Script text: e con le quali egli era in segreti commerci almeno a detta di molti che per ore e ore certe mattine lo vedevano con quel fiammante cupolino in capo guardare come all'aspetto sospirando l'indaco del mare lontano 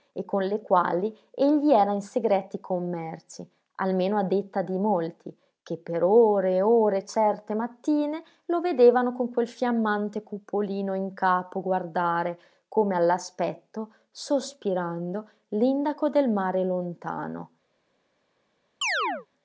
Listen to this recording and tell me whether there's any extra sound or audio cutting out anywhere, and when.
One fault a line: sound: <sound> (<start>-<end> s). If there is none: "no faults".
sound: chirp (18.8-19.3 s)